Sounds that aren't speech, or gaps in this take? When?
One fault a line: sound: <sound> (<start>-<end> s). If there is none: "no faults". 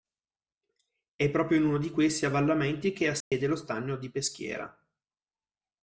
sound: dropout (3.2-3.3 s)